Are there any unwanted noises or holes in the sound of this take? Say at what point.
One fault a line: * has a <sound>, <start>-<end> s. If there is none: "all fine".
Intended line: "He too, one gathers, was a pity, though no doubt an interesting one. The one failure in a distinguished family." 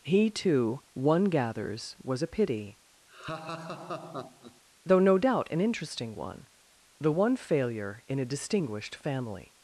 * has a laugh, 3.1-4.6 s